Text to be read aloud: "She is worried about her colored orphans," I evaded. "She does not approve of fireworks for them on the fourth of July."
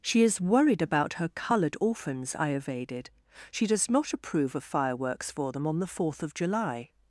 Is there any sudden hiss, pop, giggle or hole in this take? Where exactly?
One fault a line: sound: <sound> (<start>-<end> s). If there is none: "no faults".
no faults